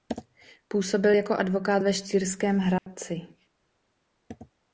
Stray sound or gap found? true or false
true